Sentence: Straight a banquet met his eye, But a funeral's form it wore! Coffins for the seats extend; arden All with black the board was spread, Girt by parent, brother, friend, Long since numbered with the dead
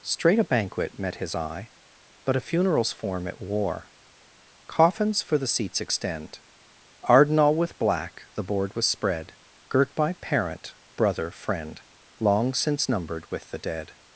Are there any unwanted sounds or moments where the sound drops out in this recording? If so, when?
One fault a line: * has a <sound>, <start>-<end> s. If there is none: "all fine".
all fine